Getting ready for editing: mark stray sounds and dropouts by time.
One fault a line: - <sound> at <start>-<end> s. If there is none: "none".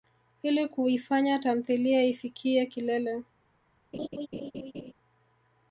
- laugh at 3.9-4.9 s